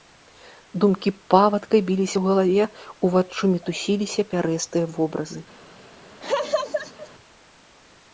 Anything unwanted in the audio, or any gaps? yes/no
yes